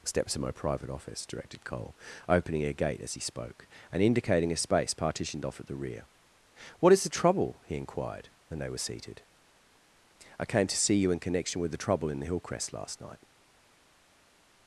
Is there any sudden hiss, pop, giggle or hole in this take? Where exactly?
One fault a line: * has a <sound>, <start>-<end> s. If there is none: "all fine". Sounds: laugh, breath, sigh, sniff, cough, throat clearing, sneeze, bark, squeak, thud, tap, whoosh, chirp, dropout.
all fine